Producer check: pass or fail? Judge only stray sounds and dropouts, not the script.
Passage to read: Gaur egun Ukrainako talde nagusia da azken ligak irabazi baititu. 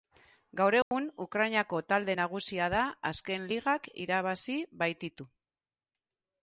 fail